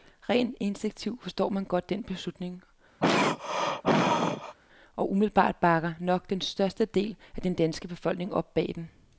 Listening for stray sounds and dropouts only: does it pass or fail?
fail